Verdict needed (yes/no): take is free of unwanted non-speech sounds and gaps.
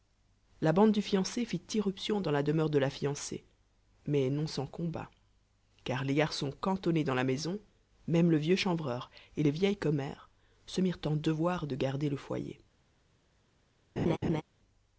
no